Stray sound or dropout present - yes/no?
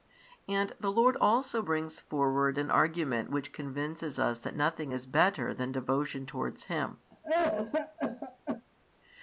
yes